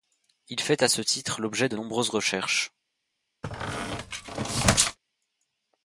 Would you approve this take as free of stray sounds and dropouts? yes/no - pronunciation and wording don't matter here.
no